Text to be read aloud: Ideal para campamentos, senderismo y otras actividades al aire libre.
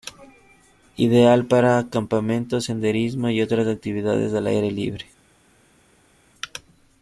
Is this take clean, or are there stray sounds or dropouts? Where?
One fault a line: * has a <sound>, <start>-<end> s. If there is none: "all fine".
all fine